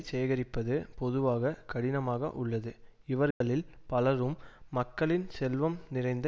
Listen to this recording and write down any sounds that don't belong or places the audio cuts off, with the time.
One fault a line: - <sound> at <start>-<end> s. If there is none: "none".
- dropout at 3.3-3.4 s